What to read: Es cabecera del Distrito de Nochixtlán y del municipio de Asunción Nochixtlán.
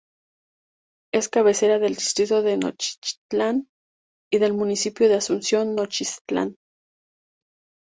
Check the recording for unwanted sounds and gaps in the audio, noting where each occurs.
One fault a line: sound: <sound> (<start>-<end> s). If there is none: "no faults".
no faults